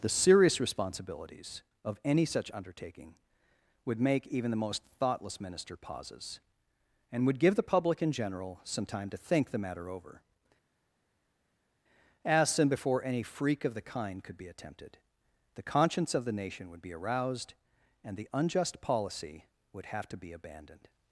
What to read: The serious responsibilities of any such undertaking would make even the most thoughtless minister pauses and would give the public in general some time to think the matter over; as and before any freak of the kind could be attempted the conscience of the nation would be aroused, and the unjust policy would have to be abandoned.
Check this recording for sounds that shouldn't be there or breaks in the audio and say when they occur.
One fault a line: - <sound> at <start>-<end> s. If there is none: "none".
none